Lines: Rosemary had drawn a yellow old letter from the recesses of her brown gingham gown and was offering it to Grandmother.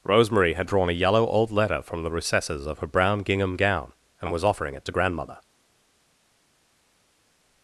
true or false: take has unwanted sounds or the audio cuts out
false